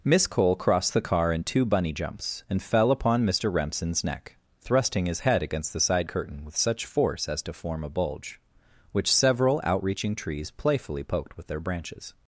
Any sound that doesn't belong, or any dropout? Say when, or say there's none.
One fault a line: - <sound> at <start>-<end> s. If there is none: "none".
none